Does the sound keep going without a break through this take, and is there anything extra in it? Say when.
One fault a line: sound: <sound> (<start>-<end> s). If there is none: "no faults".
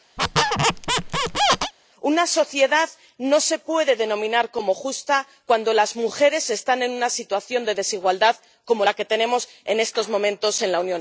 sound: squeak (0.2-1.7 s)